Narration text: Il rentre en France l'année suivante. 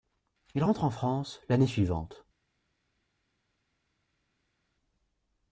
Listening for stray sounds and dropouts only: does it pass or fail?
pass